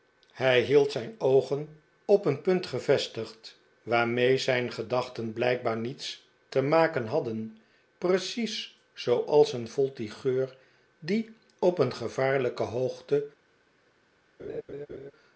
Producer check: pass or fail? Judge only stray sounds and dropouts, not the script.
fail